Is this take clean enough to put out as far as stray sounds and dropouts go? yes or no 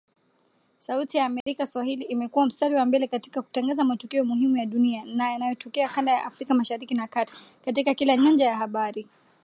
no